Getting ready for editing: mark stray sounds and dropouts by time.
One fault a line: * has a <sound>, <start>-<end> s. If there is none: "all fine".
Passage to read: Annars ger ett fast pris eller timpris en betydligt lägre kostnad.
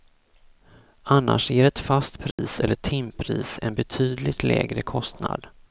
* has a dropout, 2.3-2.4 s